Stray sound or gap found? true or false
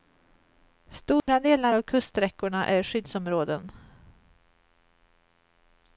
true